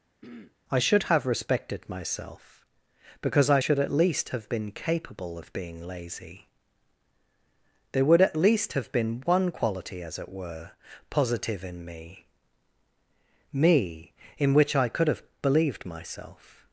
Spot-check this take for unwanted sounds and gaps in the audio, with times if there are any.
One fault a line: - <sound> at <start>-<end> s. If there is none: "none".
- throat clearing at 0.2-0.6 s